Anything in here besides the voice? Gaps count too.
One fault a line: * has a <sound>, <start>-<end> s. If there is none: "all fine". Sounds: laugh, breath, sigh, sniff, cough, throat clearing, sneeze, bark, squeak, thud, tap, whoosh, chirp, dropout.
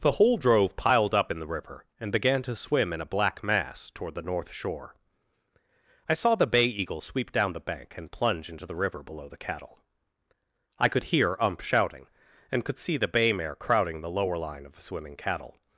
all fine